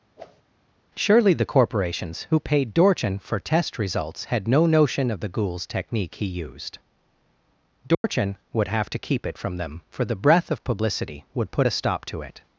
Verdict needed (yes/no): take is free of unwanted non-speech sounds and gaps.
no